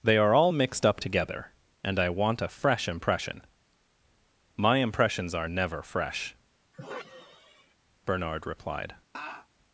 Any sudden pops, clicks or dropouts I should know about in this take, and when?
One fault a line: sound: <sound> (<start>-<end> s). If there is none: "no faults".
sound: sigh (6.7-7.7 s)
sound: laugh (9.1-9.5 s)